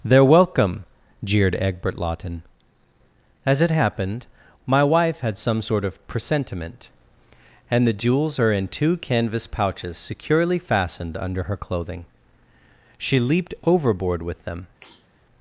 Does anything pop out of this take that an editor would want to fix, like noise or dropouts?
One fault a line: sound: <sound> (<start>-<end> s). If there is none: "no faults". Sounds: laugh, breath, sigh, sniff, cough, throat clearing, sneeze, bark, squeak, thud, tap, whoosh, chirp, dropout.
sound: sniff (14.8-15.1 s)